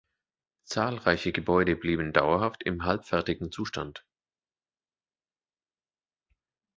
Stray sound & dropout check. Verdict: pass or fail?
pass